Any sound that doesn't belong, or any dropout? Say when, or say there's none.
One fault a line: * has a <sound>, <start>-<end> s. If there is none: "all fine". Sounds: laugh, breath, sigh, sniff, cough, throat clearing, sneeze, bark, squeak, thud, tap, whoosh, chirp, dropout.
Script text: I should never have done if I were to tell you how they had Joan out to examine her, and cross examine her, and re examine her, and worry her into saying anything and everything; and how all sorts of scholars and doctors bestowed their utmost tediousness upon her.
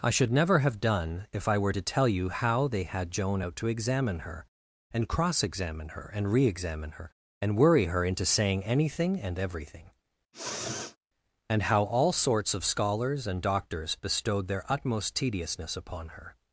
* has a sniff, 10.3-11.0 s